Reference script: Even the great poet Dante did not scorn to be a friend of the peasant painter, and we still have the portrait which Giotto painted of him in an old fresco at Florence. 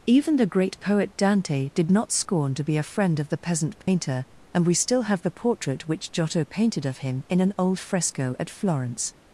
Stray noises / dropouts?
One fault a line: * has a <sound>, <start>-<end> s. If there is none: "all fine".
* has a dropout, 3.8-3.9 s